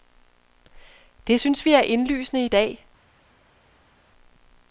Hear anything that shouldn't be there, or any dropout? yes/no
no